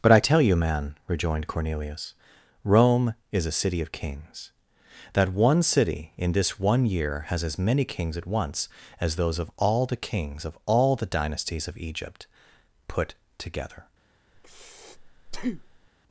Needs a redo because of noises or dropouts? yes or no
yes